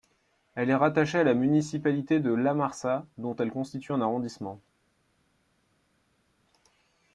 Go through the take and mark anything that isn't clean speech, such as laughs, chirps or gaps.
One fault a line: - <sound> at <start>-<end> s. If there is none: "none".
none